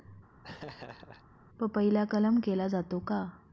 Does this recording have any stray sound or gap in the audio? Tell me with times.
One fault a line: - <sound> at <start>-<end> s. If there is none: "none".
- laugh at 0.4-1.2 s